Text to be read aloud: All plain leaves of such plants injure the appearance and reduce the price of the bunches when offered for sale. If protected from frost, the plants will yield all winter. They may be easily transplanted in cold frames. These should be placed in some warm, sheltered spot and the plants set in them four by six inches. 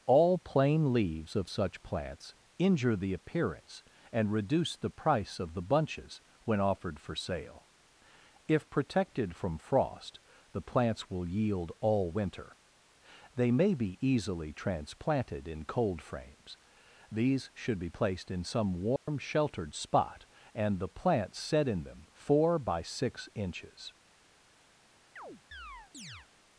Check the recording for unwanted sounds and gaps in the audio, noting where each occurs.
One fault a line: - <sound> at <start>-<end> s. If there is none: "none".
- dropout at 19.0-19.1 s
- chirp at 25.2-26.3 s